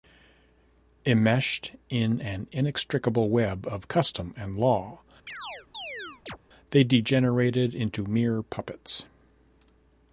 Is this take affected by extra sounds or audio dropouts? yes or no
yes